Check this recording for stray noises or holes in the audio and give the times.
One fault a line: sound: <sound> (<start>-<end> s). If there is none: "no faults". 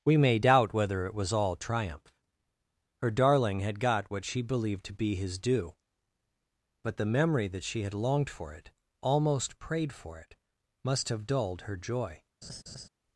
sound: laugh (12.4-12.9 s)